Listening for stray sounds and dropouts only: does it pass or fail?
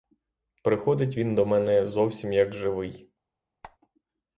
fail